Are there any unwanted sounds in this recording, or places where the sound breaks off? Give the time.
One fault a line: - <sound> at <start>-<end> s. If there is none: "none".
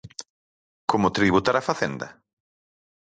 none